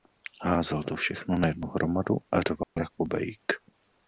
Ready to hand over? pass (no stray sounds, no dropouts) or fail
fail